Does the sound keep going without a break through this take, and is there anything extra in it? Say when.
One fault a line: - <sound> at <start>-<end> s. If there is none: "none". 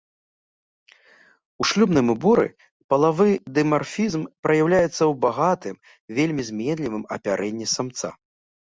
none